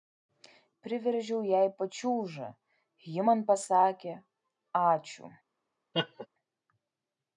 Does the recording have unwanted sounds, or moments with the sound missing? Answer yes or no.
yes